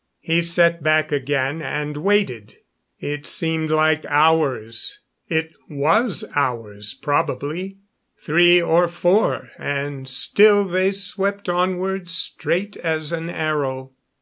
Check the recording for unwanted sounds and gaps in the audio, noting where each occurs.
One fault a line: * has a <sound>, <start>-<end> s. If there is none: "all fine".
all fine